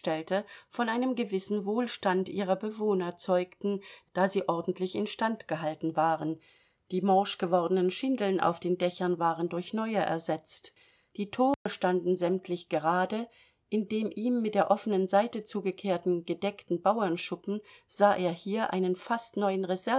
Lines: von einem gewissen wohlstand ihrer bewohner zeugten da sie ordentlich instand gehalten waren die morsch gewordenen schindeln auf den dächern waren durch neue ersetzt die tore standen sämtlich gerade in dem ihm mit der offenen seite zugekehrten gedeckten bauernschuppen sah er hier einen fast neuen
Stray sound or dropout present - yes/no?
yes